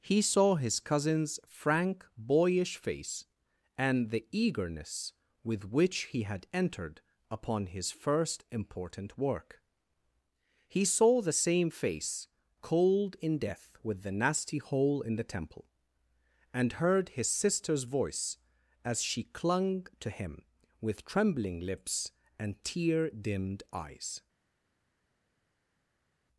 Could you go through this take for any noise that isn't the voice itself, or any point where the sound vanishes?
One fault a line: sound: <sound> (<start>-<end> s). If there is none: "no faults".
no faults